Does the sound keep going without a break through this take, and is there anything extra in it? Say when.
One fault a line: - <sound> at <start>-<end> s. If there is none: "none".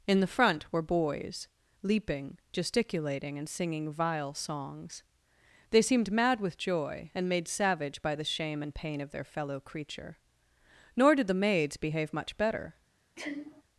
- sneeze at 13.2-13.6 s